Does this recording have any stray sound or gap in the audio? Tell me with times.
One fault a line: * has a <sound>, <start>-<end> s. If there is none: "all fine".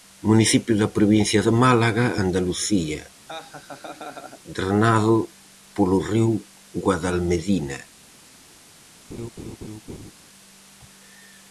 * has a laugh, 3.3-4.4 s
* has a laugh, 9.1-10.1 s